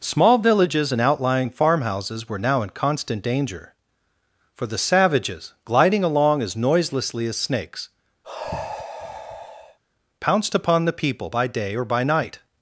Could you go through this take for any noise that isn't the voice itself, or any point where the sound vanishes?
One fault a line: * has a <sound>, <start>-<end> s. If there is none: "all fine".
* has a sigh, 8.2-9.8 s